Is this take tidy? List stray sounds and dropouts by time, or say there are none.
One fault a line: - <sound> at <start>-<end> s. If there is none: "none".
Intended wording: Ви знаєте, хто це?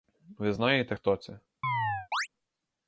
- chirp at 1.6-2.3 s